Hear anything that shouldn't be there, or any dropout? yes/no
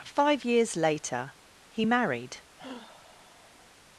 yes